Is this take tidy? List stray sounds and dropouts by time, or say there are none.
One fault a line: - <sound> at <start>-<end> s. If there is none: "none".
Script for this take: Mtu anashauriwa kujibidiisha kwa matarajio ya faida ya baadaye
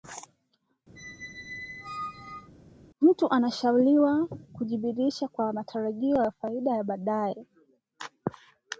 - squeak at 1.0-2.5 s